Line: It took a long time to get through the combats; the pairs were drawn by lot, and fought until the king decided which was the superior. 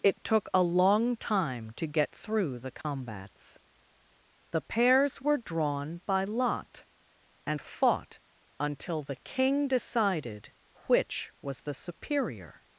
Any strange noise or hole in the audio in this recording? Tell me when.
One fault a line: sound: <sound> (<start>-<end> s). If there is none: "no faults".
sound: dropout (2.8-2.8 s)